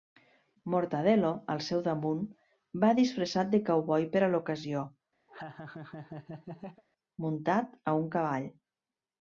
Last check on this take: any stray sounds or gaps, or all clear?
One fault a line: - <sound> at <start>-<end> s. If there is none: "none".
- laugh at 5.3-6.8 s